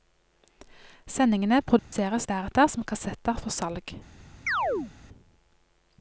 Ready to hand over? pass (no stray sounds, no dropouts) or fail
fail